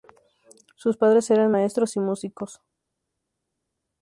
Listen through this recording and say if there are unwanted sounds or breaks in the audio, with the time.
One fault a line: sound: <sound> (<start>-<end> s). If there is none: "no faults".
no faults